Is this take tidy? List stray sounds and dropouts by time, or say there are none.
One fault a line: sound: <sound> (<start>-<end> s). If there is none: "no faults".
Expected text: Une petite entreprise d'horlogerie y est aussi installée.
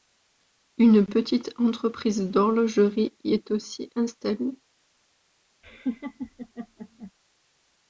sound: laugh (5.6-7.1 s)